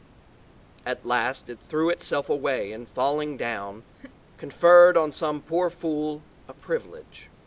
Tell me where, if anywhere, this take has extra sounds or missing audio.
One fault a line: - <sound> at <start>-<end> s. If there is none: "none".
- laugh at 3.9-4.2 s